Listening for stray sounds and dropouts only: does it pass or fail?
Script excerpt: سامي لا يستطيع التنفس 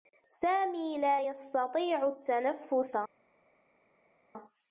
pass